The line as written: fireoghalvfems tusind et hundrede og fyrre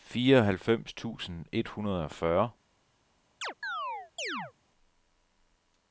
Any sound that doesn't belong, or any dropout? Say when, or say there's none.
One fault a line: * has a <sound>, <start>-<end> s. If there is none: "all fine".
* has a chirp, 3.4-4.5 s